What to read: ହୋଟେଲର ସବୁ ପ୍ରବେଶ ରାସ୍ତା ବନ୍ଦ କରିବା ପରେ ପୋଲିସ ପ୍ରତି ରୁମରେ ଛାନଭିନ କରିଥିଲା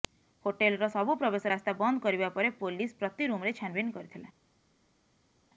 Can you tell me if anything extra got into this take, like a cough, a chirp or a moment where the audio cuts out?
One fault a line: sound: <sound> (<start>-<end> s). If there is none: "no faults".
no faults